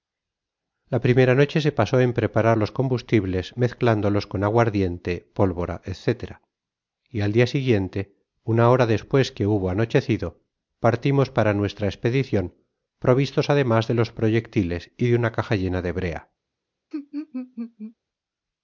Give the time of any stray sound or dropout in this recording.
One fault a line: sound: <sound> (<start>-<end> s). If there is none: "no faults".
sound: laugh (16.9-17.9 s)